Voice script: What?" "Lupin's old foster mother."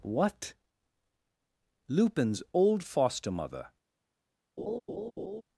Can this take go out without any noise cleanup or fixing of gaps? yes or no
no